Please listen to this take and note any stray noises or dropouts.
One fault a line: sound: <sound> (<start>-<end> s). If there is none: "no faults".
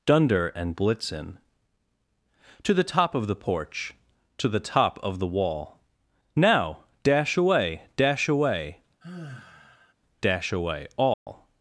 sound: sigh (9.0-9.9 s)
sound: dropout (11.1-11.3 s)